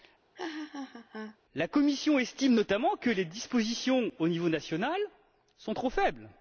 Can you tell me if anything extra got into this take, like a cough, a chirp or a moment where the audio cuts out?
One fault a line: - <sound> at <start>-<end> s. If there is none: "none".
- laugh at 0.3-1.4 s